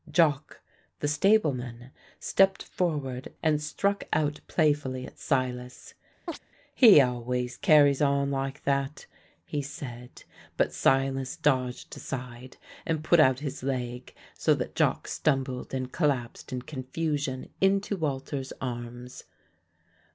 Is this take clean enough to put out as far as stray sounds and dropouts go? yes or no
no